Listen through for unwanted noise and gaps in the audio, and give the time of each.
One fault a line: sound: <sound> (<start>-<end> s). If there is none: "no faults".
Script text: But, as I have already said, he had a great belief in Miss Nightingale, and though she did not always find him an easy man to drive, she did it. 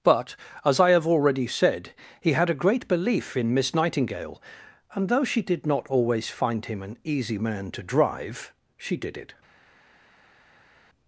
no faults